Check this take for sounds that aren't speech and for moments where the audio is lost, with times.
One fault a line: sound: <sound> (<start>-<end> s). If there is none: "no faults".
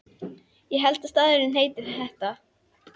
no faults